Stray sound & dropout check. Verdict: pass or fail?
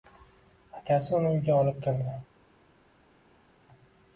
pass